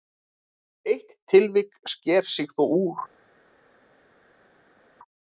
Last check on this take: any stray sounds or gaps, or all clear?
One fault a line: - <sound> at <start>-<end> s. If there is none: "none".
none